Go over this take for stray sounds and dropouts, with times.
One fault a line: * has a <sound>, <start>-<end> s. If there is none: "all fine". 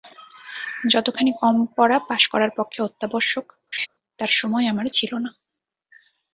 * has a laugh, 3.7-3.9 s